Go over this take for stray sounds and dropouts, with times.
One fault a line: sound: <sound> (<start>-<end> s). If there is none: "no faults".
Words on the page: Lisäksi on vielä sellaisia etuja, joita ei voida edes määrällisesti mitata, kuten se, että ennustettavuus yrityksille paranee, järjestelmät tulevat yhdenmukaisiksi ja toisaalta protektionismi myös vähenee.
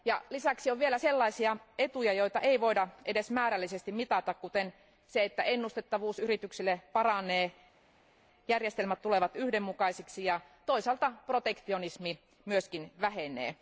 no faults